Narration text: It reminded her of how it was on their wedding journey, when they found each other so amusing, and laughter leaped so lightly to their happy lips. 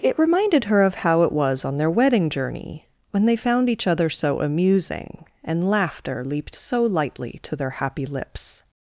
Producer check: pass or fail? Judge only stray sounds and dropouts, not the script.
pass